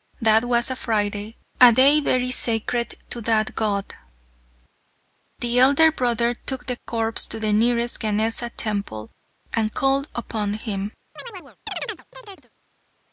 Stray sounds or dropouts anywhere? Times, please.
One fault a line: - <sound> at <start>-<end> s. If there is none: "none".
- chirp at 11.2-12.5 s